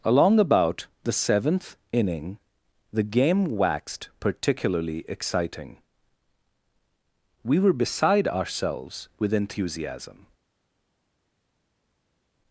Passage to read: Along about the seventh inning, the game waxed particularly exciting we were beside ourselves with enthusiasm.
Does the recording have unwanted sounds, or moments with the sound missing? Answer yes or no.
no